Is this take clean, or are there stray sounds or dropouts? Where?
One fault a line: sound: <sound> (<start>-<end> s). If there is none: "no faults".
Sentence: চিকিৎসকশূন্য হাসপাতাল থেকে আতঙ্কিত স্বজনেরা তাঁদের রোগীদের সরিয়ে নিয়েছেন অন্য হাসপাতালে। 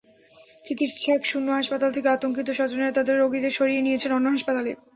no faults